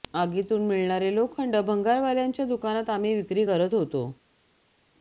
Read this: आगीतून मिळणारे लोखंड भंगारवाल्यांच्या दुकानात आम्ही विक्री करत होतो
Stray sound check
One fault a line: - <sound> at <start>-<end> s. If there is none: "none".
none